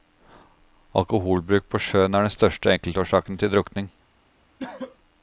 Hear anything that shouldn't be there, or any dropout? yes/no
yes